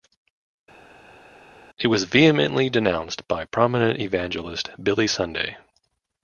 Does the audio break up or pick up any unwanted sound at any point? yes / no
no